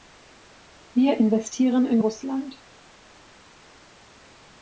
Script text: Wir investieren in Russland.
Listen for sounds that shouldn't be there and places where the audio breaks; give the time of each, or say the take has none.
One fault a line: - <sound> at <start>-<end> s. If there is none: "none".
none